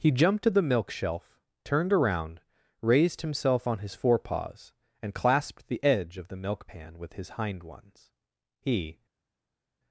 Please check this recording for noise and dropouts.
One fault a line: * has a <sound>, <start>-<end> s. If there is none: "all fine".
all fine